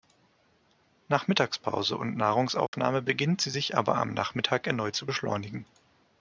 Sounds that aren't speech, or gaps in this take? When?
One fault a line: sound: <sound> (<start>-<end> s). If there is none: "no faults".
sound: dropout (2.7-2.7 s)